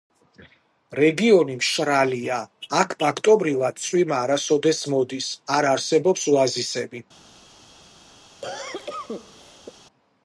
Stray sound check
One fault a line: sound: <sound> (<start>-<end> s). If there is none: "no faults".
sound: cough (8.4-9.7 s)